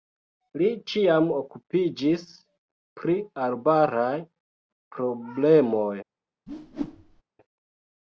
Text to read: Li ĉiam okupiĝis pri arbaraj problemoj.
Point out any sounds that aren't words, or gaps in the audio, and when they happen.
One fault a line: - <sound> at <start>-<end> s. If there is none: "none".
- whoosh at 6.5-7.2 s